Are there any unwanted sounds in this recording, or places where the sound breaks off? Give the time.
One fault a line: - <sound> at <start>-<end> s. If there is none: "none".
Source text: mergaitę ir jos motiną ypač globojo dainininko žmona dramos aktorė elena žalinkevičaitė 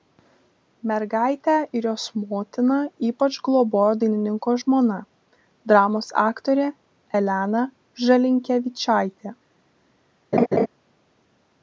- laugh at 10.3-10.7 s